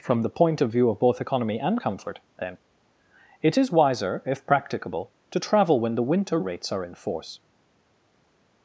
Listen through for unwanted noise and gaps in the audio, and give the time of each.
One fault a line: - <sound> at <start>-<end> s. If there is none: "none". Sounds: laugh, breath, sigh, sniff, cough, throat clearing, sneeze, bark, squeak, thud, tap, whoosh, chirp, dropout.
none